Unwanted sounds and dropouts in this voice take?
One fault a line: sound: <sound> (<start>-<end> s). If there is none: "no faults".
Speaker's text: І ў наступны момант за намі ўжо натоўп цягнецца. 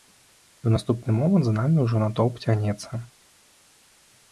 no faults